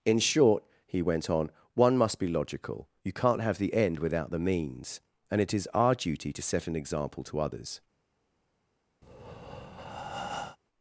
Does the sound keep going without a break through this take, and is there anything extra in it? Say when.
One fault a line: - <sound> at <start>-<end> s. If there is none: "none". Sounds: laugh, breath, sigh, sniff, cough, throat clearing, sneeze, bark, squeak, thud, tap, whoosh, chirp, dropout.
- breath at 9.0-10.6 s